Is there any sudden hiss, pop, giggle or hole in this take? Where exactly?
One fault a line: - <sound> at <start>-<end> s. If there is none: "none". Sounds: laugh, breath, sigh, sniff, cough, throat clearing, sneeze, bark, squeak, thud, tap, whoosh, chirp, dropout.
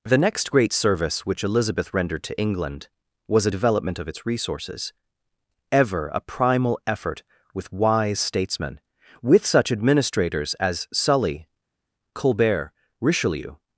none